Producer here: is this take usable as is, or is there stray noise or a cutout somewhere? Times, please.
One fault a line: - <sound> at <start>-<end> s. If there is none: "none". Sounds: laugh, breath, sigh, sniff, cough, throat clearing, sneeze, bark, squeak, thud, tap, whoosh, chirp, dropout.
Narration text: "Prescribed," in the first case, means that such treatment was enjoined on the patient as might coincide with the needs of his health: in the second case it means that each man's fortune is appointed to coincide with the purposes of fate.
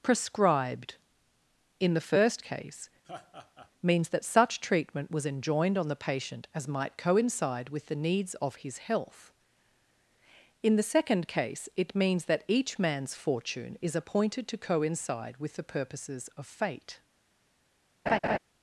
- laugh at 3.0-3.7 s
- laugh at 18.1-18.4 s